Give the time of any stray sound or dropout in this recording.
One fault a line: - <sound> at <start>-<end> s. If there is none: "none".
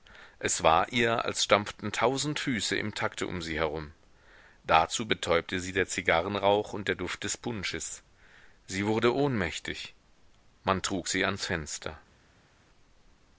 none